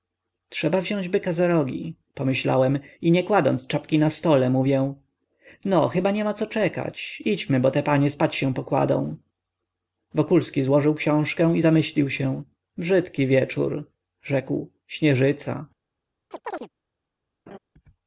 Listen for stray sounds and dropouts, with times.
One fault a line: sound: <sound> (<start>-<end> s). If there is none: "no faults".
sound: chirp (16.3-16.7 s)
sound: laugh (17.5-17.6 s)